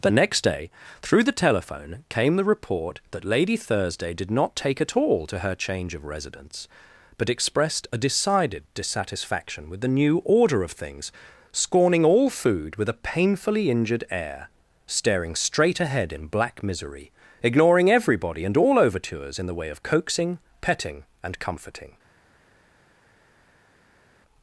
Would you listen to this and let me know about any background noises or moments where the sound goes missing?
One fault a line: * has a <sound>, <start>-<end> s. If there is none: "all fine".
all fine